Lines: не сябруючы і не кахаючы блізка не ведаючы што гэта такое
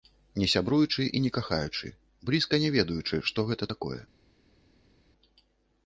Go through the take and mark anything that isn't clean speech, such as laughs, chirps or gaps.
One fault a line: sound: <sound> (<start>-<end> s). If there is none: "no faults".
no faults